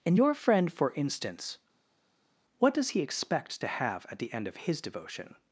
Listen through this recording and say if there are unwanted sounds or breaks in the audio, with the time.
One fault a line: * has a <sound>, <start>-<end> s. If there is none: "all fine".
all fine